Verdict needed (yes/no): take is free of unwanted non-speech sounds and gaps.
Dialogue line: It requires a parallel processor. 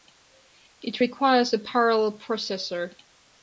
yes